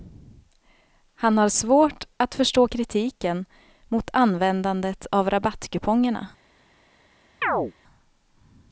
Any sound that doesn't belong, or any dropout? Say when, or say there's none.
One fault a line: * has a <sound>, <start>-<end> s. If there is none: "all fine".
* has a chirp, 7.4-7.7 s